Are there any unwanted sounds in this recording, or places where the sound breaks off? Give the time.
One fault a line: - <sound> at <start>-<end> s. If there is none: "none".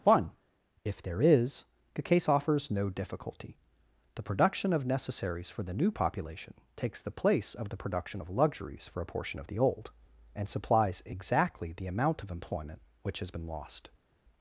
none